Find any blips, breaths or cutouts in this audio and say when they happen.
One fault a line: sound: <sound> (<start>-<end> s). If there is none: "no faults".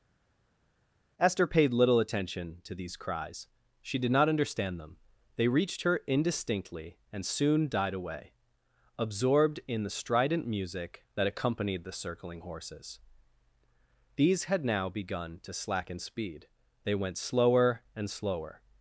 no faults